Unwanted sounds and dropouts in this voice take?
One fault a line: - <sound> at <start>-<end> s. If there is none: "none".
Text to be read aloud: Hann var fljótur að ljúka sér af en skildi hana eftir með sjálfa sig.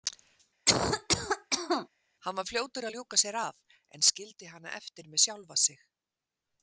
- cough at 0.7-1.9 s